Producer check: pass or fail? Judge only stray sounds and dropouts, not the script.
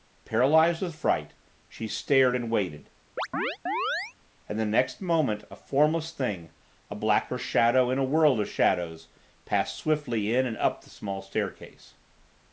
fail